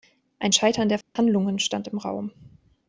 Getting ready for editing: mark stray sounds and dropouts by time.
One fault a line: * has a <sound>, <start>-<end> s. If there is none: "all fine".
* has a dropout, 1.0-1.2 s